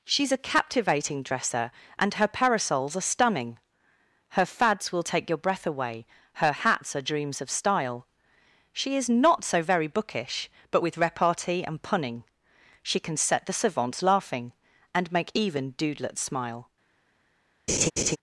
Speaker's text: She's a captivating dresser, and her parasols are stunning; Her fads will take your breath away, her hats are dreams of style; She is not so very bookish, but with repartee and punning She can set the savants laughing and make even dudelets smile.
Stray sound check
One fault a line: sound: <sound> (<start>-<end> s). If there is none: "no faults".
sound: laugh (17.7-18.2 s)